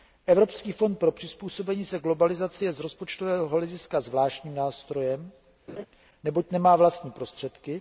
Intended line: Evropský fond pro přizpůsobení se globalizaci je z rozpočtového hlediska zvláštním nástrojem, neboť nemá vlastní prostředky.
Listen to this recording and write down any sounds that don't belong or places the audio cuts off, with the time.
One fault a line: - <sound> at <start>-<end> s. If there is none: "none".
- laugh at 5.7-5.9 s